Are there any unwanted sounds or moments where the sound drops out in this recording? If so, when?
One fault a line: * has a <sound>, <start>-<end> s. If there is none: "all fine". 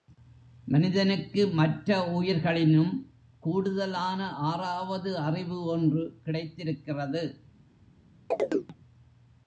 * has a chirp, 8.3-8.8 s